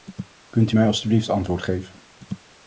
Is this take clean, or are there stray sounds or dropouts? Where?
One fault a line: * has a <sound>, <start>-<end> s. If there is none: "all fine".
all fine